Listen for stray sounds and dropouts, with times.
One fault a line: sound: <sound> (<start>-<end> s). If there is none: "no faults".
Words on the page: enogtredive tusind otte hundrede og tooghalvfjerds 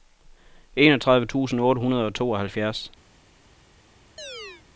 sound: chirp (4.2-4.6 s)